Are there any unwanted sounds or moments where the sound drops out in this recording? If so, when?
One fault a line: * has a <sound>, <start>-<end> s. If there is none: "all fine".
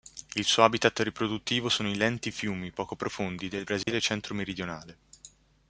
* has a dropout, 3.8-3.9 s